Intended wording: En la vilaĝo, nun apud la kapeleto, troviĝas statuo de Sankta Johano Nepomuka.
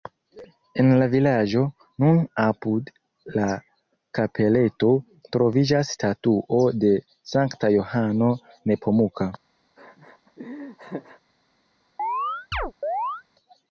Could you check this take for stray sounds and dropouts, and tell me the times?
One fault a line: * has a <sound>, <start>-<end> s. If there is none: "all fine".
* has a laugh, 9.8-11.2 s
* has a chirp, 12.0-13.2 s